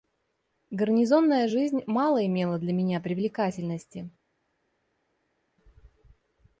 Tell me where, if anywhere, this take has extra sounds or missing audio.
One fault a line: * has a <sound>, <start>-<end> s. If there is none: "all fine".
all fine